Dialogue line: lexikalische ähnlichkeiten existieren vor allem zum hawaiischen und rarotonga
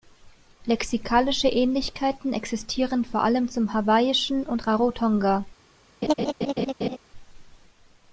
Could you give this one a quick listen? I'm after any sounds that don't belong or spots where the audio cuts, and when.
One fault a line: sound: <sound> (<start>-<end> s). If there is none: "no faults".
sound: laugh (6.0-7.0 s)